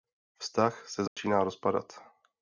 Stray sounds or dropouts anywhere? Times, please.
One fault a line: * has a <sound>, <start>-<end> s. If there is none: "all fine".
* has a dropout, 1.1-1.2 s